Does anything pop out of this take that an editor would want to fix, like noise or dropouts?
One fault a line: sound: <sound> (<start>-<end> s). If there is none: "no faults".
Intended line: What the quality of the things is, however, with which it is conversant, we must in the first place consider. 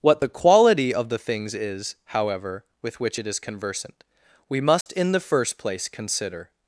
sound: dropout (4.8-4.9 s)